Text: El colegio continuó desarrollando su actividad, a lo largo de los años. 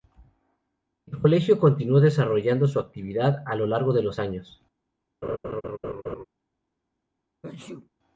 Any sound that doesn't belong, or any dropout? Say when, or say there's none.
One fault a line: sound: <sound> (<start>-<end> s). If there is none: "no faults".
sound: laugh (5.2-6.2 s)
sound: sneeze (7.4-7.9 s)